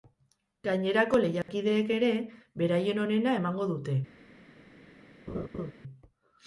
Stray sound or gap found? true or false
true